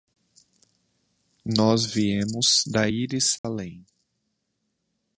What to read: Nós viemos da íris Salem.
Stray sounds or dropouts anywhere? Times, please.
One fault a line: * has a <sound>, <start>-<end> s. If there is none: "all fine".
* has a dropout, 3.4-3.4 s